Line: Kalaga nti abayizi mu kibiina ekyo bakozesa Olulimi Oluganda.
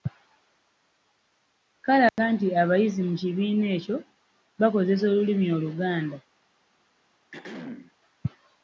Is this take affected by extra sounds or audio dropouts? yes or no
yes